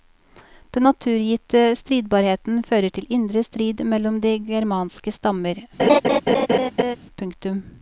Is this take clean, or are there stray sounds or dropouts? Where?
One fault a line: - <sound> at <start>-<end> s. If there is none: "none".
- laugh at 5.8-7.0 s